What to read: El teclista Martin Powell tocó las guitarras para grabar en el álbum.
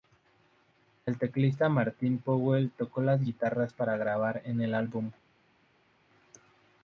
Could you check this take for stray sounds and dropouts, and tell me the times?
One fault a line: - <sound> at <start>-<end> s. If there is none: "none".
none